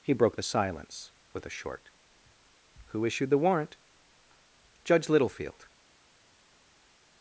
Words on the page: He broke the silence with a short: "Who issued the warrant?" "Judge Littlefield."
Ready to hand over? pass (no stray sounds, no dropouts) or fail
pass